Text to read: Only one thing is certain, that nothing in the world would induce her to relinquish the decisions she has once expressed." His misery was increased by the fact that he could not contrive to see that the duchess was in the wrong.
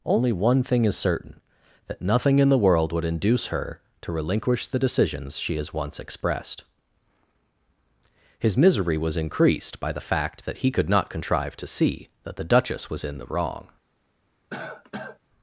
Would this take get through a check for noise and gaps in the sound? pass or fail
fail